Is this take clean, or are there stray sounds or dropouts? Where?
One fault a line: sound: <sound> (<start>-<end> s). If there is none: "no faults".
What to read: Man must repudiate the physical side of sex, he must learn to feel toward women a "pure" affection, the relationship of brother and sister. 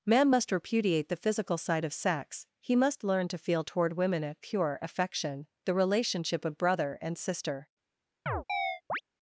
sound: chirp (8.3-9.0 s)